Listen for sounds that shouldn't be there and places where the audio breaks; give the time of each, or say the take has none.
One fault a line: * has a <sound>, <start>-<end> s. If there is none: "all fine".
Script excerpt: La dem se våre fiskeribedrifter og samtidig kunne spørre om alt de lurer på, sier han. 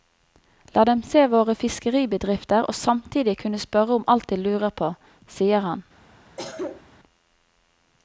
* has a cough, 6.4-6.9 s